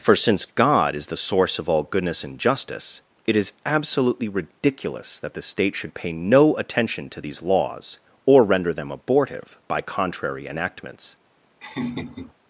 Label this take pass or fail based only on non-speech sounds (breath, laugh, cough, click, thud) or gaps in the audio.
fail